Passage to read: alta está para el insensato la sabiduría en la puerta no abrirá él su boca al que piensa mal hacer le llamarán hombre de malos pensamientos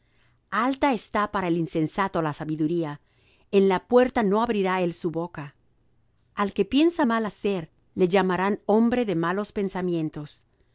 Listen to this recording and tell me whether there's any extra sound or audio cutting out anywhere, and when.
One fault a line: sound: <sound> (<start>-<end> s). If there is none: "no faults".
no faults